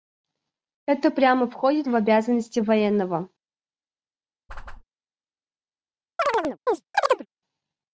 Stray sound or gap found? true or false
true